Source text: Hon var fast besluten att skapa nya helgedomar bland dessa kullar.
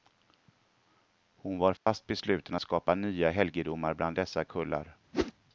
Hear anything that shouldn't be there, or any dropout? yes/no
yes